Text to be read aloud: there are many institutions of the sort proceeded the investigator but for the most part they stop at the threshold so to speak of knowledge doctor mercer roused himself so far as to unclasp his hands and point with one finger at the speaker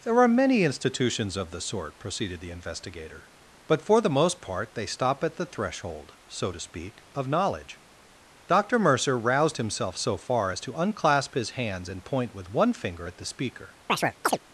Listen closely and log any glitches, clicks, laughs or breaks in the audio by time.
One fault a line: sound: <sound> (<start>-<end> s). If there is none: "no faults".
sound: chirp (13.9-14.4 s)